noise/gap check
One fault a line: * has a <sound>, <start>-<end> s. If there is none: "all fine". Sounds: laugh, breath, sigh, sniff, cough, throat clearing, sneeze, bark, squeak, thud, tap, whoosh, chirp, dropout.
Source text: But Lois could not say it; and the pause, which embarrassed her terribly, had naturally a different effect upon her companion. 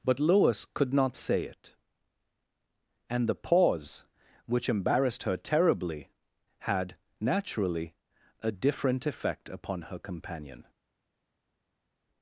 all fine